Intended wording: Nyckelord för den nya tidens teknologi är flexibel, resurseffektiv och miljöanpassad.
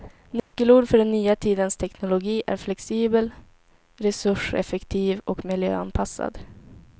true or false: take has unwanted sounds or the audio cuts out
true